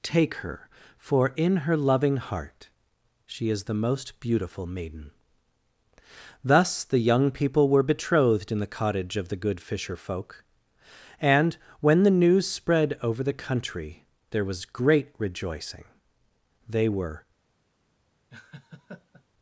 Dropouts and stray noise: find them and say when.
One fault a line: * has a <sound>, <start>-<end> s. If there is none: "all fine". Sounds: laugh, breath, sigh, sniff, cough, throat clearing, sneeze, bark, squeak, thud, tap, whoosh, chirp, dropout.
* has a laugh, 18.3-19.2 s